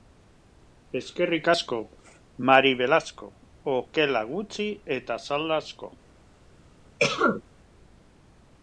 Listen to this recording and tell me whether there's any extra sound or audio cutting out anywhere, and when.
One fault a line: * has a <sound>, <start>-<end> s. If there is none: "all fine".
* has a cough, 7.0-7.4 s